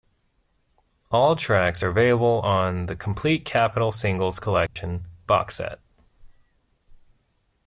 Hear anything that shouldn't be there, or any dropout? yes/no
yes